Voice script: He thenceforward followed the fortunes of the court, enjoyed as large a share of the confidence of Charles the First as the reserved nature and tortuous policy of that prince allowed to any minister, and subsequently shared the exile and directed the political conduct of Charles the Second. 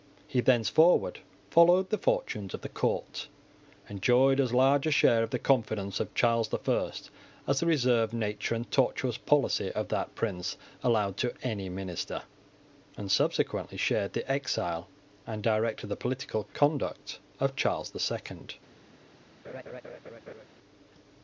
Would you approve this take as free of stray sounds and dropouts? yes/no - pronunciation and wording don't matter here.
no